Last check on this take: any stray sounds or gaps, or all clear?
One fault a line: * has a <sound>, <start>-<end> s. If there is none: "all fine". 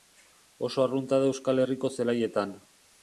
all fine